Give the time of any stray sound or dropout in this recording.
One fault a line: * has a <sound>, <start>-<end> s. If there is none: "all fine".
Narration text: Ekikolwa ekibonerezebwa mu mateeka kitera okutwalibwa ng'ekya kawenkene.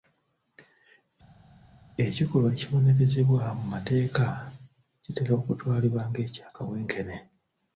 all fine